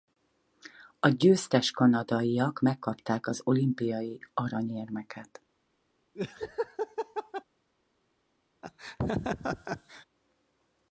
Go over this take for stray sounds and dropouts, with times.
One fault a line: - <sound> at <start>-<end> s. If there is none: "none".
- laugh at 6.2-7.4 s
- laugh at 8.6-10.1 s